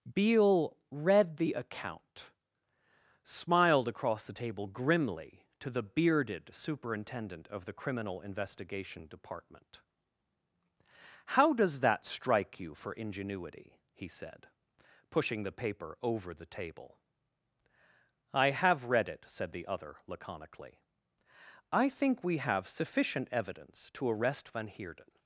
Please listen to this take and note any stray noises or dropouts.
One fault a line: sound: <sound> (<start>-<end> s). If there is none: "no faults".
no faults